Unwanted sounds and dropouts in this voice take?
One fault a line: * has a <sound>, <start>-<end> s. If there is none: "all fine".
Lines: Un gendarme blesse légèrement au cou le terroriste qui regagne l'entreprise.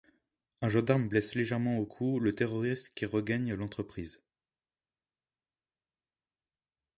all fine